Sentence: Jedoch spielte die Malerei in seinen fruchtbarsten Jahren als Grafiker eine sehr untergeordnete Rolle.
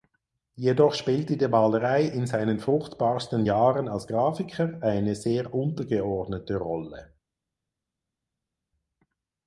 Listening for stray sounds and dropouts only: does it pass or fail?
pass